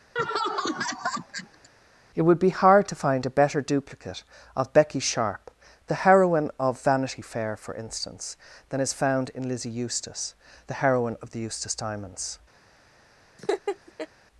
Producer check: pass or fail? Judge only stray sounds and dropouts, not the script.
fail